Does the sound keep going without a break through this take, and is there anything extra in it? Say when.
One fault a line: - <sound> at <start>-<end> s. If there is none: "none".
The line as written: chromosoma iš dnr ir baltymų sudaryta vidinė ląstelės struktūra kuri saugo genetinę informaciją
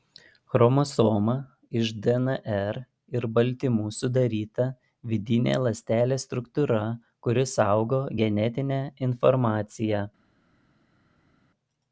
none